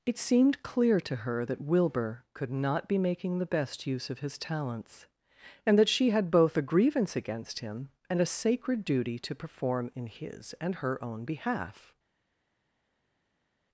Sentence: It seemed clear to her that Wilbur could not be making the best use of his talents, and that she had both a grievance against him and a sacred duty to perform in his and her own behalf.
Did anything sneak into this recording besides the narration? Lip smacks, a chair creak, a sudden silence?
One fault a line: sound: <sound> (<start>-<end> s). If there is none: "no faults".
no faults